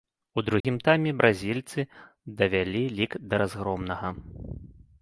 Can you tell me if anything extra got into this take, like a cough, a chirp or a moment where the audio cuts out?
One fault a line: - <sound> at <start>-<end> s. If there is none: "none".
- dropout at 0.6-0.6 s